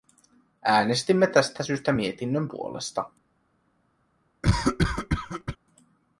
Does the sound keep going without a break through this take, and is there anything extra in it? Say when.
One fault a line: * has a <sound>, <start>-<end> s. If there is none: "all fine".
* has a cough, 4.4-5.6 s